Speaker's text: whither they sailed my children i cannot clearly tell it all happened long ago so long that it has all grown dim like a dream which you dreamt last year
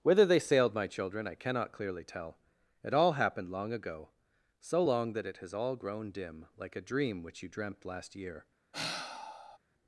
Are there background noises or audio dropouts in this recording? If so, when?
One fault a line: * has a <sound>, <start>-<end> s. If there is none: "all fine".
* has a sigh, 8.7-9.6 s